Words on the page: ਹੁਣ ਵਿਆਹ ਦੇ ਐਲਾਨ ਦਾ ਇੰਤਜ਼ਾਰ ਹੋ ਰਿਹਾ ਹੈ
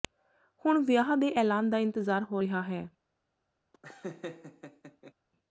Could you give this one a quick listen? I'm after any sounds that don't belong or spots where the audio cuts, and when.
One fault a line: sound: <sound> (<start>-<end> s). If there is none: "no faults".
sound: laugh (3.7-5.1 s)